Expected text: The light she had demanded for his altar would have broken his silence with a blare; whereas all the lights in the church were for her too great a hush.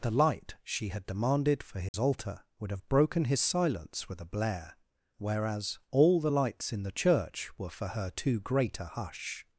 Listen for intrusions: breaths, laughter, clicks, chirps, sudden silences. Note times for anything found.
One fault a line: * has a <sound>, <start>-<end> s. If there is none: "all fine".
* has a dropout, 1.9-1.9 s